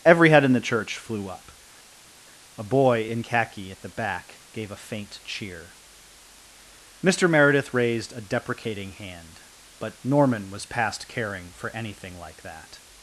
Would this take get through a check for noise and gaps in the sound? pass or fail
pass